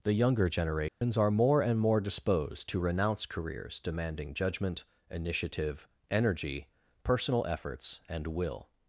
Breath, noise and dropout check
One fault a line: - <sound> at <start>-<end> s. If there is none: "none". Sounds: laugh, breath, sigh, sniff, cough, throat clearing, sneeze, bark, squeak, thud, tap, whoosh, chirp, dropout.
- dropout at 0.9-1.0 s